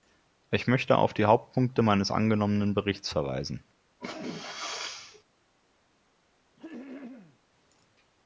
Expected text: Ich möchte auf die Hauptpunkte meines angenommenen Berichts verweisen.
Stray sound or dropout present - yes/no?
yes